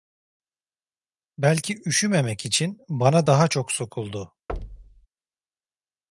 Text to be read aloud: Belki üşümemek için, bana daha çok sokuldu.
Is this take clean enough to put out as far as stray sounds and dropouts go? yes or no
no